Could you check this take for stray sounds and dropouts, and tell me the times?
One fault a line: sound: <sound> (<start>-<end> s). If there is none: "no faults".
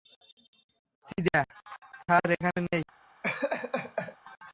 sound: laugh (3.2-4.2 s)